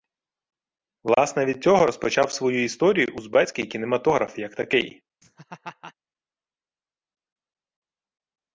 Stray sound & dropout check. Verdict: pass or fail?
fail